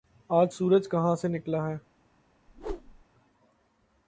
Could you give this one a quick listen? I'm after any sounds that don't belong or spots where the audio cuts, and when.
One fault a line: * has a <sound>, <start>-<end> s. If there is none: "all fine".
* has a whoosh, 2.5-3.0 s